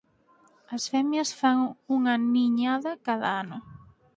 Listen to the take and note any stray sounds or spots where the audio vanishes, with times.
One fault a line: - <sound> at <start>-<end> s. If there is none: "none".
none